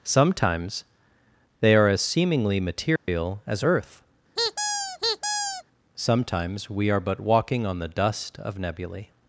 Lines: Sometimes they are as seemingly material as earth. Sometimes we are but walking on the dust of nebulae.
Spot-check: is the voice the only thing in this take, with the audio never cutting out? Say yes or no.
no